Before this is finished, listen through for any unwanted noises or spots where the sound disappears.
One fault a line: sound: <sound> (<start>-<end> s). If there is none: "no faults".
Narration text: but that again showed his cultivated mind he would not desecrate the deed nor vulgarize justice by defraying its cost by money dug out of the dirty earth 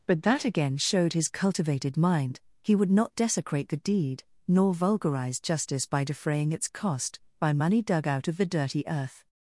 no faults